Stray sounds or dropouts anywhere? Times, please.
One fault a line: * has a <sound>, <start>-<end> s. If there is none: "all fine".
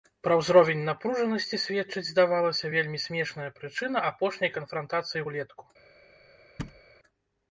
* has a thud, 6.6-6.8 s